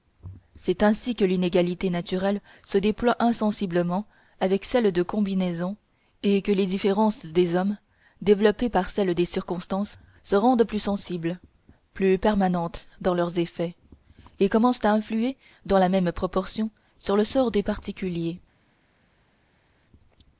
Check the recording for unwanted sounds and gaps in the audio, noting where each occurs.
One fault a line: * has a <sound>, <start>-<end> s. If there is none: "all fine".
all fine